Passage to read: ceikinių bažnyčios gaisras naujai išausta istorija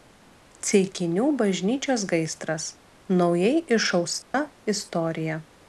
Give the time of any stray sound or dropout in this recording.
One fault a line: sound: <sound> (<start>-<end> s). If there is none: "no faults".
sound: dropout (4.2-4.3 s)